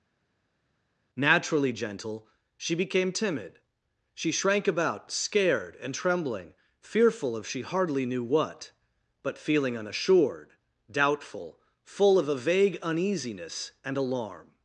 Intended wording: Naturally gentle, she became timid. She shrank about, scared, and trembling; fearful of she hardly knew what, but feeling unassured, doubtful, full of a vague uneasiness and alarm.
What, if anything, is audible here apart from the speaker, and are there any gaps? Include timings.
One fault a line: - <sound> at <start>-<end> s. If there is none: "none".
none